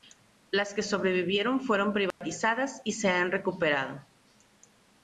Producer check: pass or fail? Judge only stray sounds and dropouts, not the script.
fail